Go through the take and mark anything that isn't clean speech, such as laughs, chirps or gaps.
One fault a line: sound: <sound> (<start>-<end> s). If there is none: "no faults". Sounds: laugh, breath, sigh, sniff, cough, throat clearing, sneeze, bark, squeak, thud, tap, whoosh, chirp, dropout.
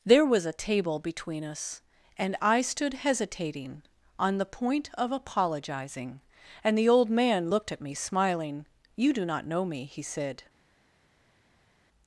no faults